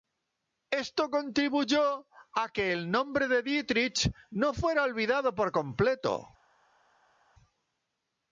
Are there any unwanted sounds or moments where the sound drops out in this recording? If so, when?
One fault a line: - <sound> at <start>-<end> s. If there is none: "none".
none